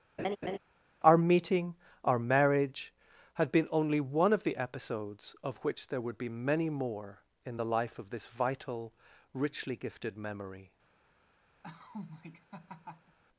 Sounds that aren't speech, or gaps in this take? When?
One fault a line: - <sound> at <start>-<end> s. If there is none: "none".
- laugh at 0.2-0.6 s
- laugh at 11.6-13.2 s